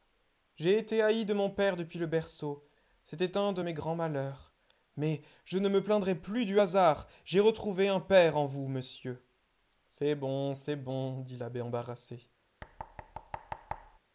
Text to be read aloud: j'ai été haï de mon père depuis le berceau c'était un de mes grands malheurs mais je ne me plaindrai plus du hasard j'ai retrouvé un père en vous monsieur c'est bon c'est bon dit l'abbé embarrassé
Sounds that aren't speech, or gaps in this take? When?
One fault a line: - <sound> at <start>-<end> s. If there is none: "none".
- thud at 12.6-14.0 s